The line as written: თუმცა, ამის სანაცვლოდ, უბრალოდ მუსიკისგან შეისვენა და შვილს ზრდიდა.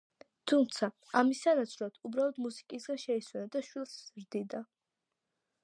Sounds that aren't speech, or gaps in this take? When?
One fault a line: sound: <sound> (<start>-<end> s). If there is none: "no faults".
no faults